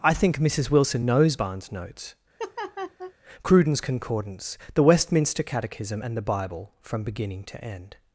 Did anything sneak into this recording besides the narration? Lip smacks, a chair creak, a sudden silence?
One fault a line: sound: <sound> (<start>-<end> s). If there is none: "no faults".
sound: laugh (2.4-3.1 s)